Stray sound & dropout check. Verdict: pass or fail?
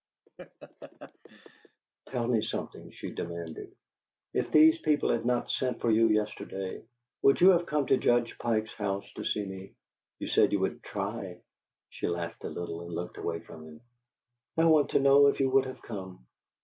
fail